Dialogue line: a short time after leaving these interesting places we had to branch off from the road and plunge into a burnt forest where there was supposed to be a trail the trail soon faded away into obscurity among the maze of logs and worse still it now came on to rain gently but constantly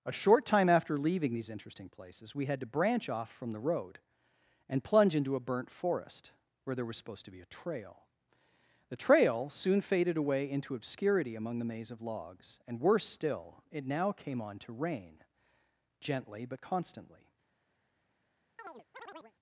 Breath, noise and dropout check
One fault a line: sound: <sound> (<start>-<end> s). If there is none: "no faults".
sound: chirp (18.6-19.3 s)